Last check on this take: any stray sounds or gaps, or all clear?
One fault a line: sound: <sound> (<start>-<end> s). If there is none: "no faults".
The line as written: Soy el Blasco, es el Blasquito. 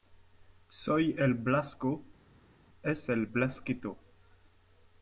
no faults